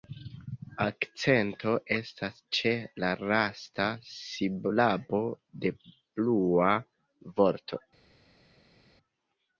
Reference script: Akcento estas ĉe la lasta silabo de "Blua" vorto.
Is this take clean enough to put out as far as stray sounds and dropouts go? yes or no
yes